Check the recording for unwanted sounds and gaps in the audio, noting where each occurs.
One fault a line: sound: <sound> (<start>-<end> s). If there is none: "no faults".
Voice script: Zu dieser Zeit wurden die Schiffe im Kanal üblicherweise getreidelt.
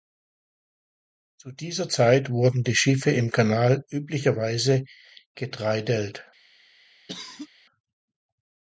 sound: cough (7.1-7.5 s)